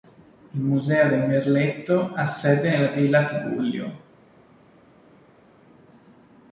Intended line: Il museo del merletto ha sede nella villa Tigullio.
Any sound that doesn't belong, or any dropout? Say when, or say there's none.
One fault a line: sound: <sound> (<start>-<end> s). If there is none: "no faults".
no faults